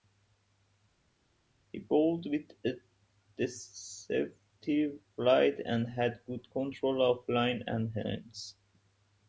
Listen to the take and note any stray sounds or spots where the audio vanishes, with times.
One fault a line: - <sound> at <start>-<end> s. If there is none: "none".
none